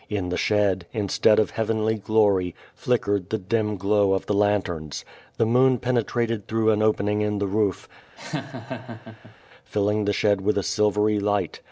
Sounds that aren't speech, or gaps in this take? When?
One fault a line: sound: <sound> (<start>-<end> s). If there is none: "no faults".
sound: laugh (8.2-9.4 s)